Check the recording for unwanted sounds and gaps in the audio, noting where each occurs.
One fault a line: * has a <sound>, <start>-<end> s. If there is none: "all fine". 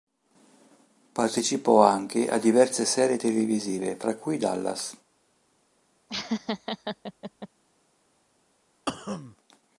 * has a laugh, 6.1-7.5 s
* has a cough, 8.9-9.4 s